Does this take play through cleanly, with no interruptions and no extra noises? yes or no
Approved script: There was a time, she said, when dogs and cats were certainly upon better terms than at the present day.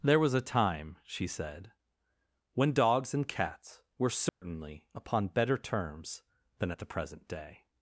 no